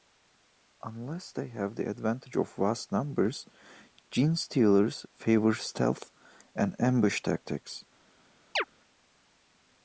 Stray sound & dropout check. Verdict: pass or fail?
fail